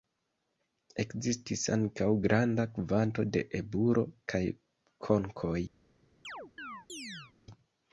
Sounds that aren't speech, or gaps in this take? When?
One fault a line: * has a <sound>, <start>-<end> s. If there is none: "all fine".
* has a chirp, 6.2-7.3 s